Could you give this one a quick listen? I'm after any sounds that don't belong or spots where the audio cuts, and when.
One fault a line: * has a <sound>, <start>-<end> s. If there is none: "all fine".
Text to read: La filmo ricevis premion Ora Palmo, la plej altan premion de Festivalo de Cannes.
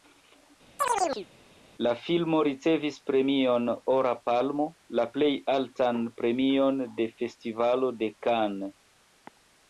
* has a chirp, 0.8-1.3 s